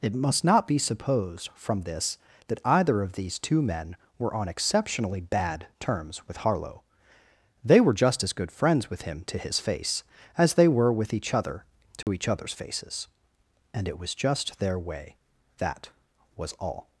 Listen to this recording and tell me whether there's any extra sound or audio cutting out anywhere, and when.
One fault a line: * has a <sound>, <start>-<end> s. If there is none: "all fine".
* has a dropout, 12.0-12.1 s